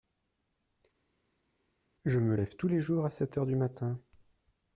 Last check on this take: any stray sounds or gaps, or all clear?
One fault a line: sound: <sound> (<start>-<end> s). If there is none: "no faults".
no faults